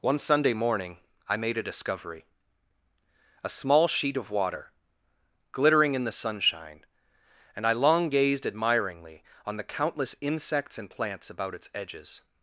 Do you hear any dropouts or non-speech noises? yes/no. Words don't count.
no